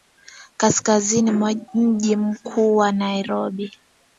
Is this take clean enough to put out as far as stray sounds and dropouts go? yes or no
yes